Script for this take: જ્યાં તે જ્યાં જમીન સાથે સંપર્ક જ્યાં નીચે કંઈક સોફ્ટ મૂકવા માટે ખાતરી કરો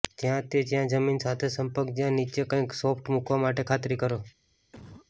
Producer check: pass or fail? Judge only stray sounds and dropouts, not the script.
fail